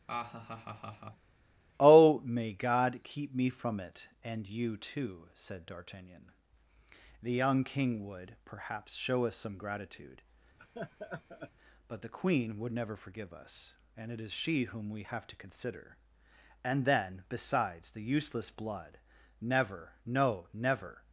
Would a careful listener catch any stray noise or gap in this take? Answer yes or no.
yes